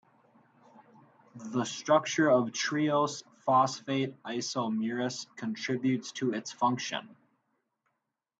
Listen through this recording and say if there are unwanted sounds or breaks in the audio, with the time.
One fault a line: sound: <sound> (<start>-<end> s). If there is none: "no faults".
no faults